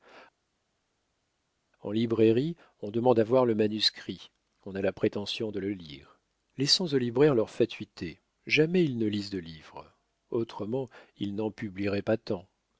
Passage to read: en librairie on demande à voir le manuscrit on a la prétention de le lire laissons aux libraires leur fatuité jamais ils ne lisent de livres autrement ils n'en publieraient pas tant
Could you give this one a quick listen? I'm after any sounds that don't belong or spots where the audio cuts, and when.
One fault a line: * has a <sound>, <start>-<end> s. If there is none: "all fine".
all fine